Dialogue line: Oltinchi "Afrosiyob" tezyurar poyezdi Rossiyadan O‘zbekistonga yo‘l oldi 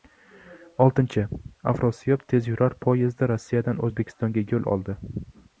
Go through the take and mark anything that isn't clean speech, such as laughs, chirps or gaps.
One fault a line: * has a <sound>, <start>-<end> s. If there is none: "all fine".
all fine